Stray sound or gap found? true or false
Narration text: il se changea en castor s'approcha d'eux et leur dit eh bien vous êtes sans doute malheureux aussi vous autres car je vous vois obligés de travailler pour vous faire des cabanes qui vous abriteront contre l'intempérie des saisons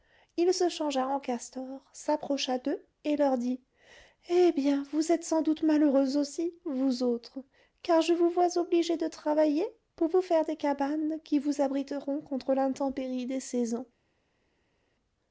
false